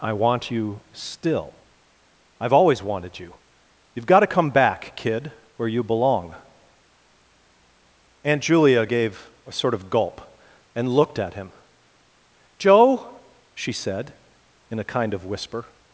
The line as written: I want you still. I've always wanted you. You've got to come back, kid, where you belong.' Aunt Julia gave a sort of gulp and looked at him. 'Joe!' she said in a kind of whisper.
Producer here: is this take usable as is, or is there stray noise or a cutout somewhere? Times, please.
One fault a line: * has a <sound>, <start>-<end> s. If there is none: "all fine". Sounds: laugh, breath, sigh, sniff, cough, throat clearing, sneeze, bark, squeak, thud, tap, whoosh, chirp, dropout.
all fine